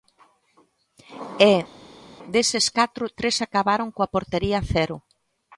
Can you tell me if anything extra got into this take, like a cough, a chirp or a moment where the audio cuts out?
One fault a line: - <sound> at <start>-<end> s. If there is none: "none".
none